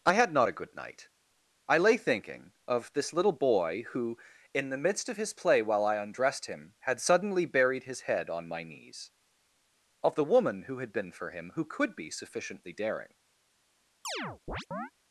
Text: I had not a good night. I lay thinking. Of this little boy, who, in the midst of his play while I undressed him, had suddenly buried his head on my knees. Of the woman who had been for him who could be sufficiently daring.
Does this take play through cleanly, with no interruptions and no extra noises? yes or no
no